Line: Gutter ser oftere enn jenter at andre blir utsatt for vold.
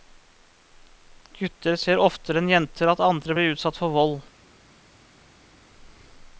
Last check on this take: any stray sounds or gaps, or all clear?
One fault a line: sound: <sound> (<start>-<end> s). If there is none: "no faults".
no faults